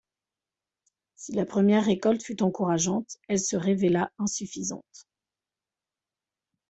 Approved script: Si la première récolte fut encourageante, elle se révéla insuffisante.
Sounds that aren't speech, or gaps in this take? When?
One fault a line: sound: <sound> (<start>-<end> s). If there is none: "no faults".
no faults